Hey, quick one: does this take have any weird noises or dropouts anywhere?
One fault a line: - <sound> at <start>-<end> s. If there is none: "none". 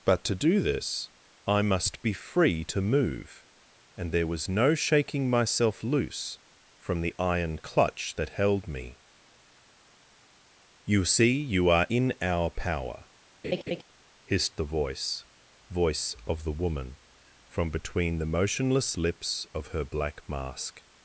- laugh at 13.4-13.8 s